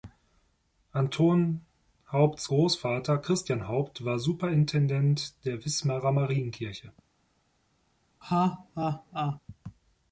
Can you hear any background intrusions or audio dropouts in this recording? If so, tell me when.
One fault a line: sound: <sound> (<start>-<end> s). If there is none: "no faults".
sound: laugh (8.2-9.4 s)